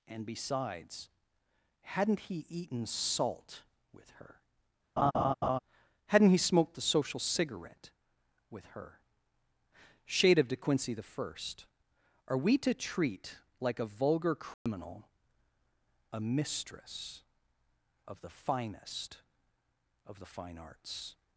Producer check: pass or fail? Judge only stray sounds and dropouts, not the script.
fail